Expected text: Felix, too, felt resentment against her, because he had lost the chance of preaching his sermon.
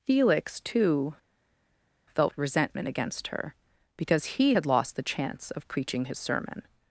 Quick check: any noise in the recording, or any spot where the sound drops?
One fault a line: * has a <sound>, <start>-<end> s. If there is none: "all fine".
all fine